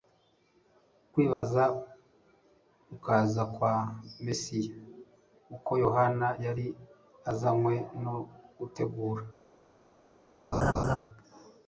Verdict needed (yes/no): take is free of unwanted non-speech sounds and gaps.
no